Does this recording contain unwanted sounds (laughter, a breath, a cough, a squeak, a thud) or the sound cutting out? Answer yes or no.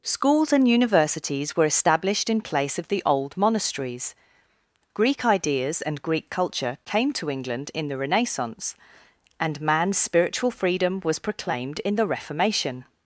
no